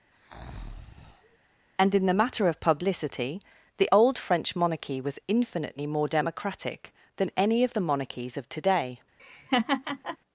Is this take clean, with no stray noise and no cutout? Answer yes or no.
no